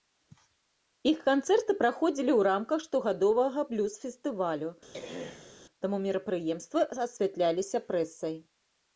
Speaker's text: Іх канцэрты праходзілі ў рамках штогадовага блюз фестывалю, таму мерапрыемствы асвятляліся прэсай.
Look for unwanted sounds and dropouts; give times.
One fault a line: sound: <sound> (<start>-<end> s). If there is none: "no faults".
sound: throat clearing (4.9-5.6 s)